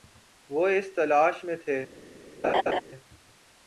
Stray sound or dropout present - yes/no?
yes